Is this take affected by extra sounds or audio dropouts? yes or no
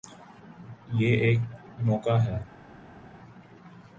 no